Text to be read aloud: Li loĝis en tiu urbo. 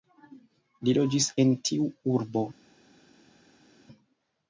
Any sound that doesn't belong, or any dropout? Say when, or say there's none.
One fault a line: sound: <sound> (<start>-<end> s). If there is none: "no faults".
no faults